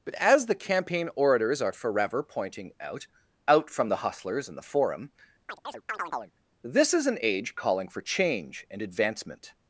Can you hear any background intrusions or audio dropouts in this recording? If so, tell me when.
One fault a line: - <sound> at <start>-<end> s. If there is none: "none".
- chirp at 5.5-6.4 s